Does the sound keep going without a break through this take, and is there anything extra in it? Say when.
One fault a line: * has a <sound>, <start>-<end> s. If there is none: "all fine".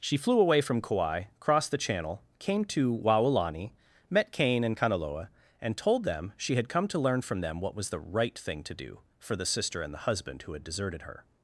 all fine